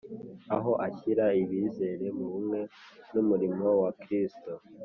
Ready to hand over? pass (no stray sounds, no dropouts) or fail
pass